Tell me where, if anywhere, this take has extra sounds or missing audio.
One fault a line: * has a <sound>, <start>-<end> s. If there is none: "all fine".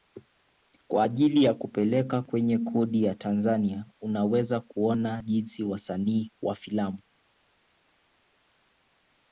all fine